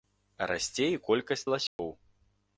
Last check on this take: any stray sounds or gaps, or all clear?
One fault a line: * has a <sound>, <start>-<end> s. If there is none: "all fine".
* has a dropout, 1.7-1.8 s